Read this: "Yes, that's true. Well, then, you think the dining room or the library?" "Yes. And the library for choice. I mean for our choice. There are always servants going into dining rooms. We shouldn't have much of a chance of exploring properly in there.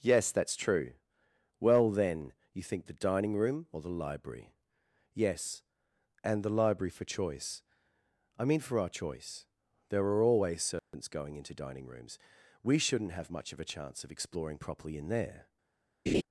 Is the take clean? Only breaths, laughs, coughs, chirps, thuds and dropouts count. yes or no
no